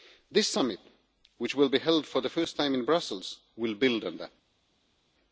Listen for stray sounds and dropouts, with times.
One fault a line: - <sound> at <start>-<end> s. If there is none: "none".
none